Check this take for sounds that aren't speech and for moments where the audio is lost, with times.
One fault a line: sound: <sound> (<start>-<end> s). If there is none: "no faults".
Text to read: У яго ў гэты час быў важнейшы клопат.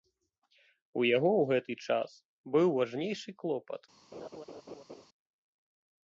sound: laugh (4.1-5.0 s)